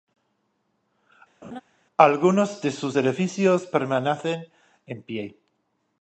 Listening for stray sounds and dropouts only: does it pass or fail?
fail